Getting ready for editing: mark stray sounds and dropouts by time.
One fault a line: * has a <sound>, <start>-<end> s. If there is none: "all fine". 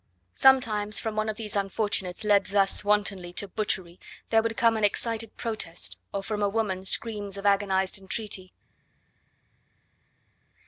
all fine